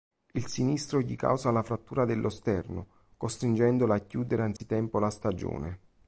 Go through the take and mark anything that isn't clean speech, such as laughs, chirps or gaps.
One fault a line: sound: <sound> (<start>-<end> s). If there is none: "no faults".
sound: dropout (4.6-4.6 s)